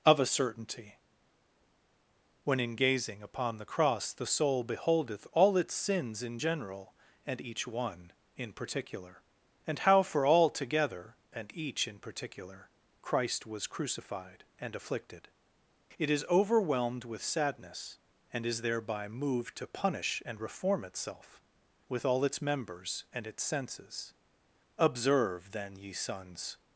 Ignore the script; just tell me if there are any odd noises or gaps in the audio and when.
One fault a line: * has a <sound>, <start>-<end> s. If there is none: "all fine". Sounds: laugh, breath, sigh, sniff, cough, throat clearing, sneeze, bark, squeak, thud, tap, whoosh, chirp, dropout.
all fine